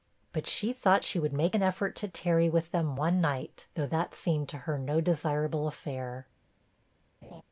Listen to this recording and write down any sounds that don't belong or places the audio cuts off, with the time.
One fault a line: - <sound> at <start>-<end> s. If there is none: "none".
- laugh at 7.2-7.4 s